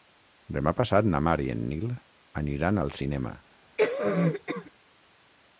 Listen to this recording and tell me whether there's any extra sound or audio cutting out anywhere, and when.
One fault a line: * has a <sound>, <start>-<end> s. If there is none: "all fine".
* has a cough, 3.8-4.7 s